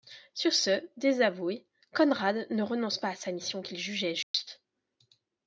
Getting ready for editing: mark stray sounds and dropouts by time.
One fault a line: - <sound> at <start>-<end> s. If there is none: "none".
- dropout at 4.2-4.3 s